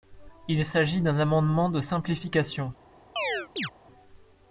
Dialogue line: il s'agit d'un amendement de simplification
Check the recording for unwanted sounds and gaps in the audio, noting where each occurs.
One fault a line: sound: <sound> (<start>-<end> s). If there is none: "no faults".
sound: chirp (3.2-3.7 s)